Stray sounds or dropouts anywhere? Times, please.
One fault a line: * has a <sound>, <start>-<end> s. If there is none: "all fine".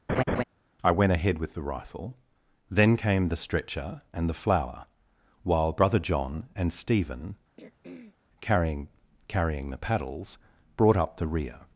* has a laugh, 0.1-0.4 s
* has a throat clearing, 7.6-8.2 s